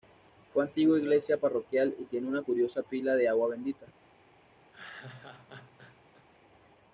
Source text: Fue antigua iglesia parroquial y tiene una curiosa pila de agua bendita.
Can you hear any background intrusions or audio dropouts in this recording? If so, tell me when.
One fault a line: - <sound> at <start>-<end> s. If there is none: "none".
- laugh at 4.7-6.3 s